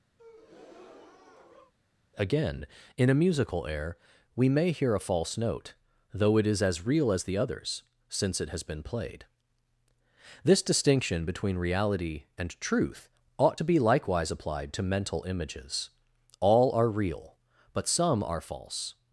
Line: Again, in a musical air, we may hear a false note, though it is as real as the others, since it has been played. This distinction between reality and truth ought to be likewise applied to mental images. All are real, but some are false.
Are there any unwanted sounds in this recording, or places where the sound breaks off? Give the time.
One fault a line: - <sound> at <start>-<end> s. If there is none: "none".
- breath at 0.2-1.7 s